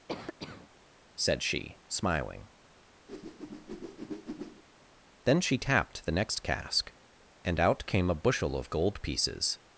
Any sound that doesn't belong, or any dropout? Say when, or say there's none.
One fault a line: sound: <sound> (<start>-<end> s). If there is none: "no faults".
sound: cough (0.1-0.7 s)
sound: whoosh (3.1-4.6 s)